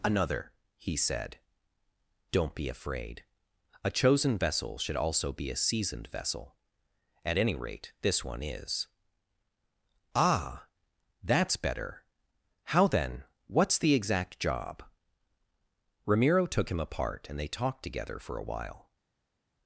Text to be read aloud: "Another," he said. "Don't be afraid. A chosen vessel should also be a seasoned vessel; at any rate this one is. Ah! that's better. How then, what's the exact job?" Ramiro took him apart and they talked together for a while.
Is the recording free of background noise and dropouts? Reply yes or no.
yes